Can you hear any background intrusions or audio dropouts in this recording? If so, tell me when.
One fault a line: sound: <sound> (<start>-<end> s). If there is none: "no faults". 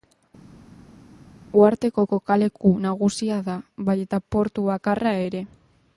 no faults